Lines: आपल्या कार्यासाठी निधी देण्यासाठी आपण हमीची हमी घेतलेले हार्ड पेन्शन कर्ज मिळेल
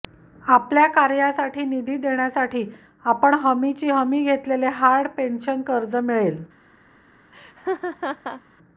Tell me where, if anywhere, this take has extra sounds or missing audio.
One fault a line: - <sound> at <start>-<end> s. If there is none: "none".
- laugh at 7.3-8.4 s